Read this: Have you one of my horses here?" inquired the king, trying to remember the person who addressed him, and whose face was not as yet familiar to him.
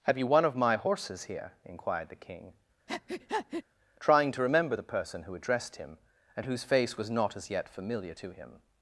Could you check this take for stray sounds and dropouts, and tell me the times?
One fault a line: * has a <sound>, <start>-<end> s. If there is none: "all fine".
* has a breath, 2.9-3.6 s